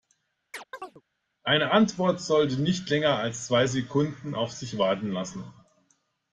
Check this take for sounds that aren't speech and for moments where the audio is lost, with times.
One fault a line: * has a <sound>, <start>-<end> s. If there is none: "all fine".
* has a chirp, 0.5-1.0 s